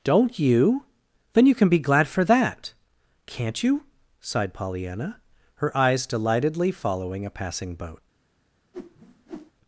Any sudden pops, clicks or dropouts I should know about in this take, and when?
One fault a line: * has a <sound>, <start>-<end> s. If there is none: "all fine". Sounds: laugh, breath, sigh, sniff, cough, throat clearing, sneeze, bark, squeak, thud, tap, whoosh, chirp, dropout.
* has a whoosh, 8.7-9.5 s